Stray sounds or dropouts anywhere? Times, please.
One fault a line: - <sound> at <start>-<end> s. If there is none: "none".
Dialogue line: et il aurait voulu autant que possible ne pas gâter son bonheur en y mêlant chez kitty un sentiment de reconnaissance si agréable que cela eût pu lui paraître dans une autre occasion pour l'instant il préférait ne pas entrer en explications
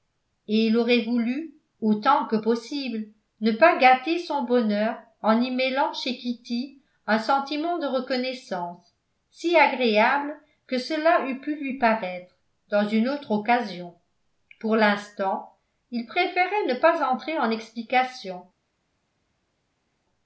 none